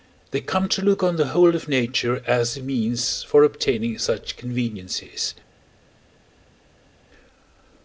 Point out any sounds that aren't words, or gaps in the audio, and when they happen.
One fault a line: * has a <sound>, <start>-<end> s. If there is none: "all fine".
all fine